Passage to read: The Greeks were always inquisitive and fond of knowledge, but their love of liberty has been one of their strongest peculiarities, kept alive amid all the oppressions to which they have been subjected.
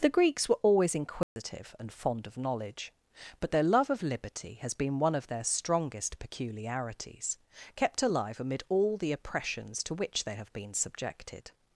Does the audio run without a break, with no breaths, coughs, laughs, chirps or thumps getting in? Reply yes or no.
no